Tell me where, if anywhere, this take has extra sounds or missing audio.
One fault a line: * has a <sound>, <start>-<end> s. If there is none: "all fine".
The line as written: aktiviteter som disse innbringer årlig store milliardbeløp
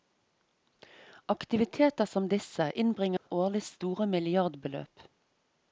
* has a dropout, 3.2-3.3 s